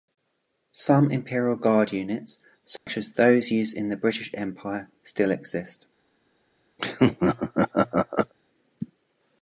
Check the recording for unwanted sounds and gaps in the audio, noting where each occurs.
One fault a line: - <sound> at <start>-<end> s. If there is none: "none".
- dropout at 2.8-2.9 s
- laugh at 6.8-8.3 s